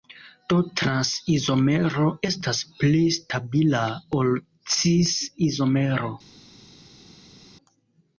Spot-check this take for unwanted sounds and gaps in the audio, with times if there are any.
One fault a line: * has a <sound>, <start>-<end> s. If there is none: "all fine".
all fine